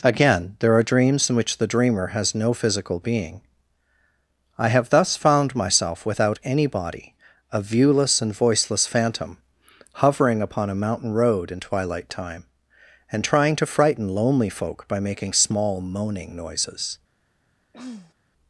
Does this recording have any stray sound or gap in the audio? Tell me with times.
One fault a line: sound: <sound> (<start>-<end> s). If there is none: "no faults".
sound: throat clearing (17.7-18.1 s)